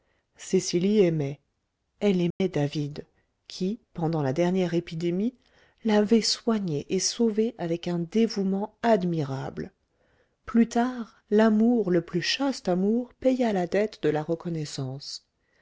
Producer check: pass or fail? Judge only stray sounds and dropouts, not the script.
fail